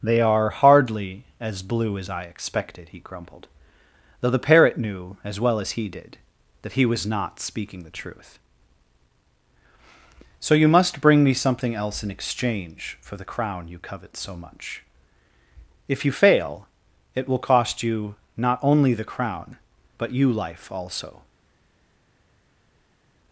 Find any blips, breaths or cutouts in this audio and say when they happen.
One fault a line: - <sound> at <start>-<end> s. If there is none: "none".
none